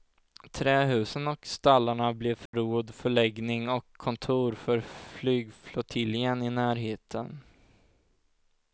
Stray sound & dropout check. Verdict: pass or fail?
fail